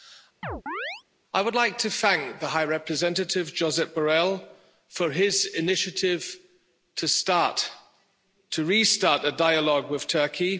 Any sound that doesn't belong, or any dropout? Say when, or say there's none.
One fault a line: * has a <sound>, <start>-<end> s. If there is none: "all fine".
* has a chirp, 0.4-1.0 s